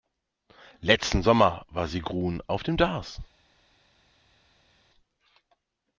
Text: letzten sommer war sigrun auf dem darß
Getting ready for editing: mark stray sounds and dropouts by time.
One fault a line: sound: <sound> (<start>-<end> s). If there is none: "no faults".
no faults